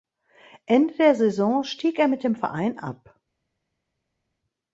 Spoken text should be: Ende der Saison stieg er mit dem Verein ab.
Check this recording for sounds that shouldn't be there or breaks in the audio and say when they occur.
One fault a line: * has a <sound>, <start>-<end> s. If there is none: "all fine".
all fine